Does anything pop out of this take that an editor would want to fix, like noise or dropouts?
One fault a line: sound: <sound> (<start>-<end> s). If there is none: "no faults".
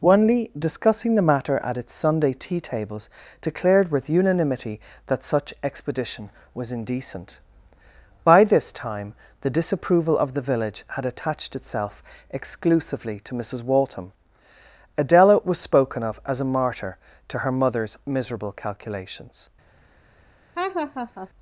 sound: laugh (20.5-21.3 s)